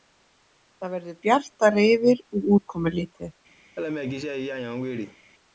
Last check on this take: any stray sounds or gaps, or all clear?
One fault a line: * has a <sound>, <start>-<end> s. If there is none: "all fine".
* has a laugh, 3.8-5.2 s